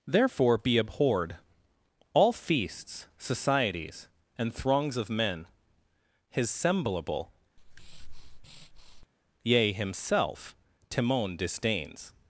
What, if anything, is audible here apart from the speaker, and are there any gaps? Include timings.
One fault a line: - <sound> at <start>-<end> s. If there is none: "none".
- breath at 7.6-9.1 s